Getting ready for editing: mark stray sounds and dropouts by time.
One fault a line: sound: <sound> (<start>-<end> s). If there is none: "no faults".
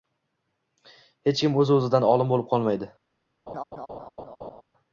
sound: laugh (3.5-4.6 s)